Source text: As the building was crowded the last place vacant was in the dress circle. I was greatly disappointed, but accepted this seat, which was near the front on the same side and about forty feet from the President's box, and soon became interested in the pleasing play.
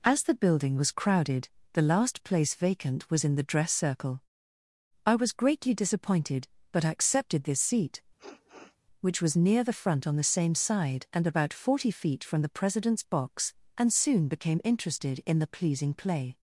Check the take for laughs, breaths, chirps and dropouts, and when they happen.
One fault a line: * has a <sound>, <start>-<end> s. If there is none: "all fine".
* has a sniff, 8.2-8.8 s